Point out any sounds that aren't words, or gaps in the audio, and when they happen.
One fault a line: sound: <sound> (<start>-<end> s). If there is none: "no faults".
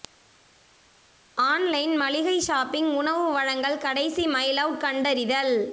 no faults